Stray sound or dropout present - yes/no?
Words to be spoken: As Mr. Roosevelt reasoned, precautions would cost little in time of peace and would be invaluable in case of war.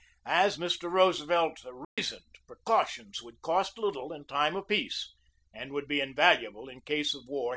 yes